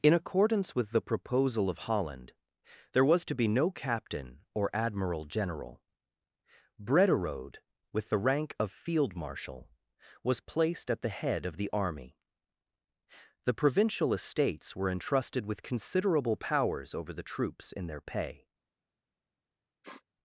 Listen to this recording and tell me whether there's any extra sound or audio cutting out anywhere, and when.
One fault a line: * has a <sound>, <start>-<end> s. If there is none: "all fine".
* has a sniff, 19.8-20.0 s